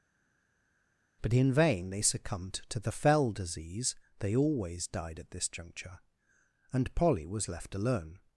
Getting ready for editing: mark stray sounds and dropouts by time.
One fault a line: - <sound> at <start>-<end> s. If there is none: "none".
none